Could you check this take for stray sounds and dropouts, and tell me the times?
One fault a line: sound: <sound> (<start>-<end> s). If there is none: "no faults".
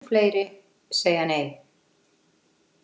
no faults